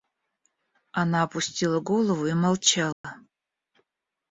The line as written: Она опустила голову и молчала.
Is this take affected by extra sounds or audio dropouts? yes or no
yes